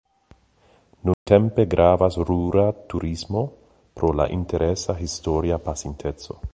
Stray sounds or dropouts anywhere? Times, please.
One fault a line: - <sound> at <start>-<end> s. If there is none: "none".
- dropout at 1.1-1.3 s